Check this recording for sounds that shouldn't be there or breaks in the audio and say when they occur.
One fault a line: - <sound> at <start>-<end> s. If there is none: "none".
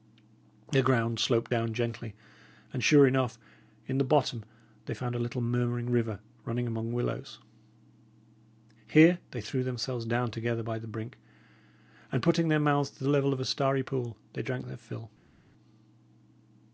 none